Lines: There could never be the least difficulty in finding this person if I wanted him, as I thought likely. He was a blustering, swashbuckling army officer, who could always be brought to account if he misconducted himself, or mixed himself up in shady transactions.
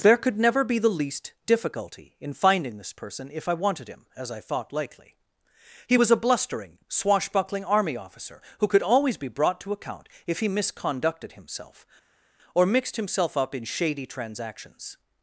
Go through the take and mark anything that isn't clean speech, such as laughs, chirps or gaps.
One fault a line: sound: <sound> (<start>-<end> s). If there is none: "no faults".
no faults